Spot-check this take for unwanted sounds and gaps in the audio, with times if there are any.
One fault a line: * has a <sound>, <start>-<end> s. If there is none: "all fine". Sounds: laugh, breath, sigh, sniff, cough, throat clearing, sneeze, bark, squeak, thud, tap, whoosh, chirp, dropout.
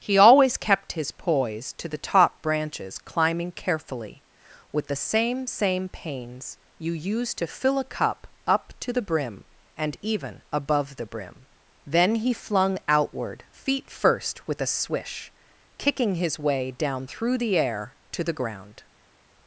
all fine